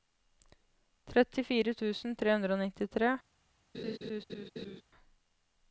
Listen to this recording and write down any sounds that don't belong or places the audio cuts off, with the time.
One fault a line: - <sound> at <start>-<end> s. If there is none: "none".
- laugh at 3.7-4.8 s